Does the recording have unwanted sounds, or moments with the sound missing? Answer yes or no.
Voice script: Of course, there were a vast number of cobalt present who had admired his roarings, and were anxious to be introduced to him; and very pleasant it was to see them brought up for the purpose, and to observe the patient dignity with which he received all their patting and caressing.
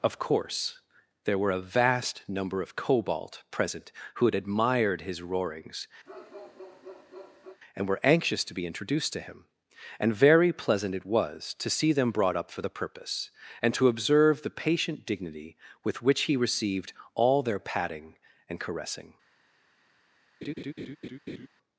yes